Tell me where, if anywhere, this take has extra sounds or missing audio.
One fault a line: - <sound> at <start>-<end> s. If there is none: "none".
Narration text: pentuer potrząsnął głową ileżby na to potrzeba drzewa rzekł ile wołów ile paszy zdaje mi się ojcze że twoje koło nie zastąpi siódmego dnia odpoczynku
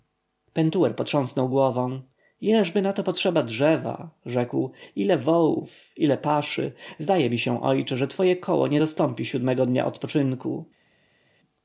none